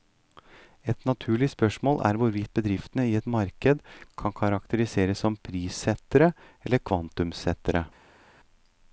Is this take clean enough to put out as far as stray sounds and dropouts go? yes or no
yes